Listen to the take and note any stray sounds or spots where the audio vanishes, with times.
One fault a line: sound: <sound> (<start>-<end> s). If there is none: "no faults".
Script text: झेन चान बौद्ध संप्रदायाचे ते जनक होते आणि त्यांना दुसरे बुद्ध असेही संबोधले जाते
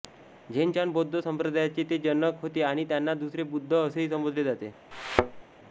sound: thud (4.9-5.4 s)